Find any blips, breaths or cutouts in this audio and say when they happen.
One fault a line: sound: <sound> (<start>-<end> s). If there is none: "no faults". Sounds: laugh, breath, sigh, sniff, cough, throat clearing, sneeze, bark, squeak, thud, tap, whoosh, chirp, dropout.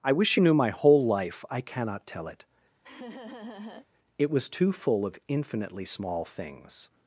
sound: laugh (2.8-3.9 s)